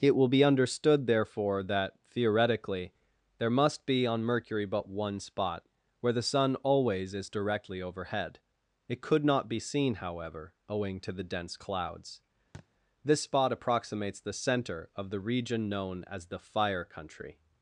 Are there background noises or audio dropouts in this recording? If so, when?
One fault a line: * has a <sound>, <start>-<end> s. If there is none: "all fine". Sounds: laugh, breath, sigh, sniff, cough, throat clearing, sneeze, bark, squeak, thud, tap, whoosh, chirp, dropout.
* has a thud, 12.5-12.7 s